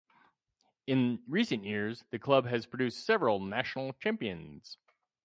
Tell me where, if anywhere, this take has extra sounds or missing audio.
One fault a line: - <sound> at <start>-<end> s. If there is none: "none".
none